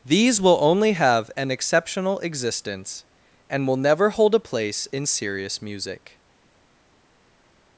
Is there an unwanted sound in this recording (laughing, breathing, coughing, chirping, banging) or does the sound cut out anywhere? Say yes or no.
no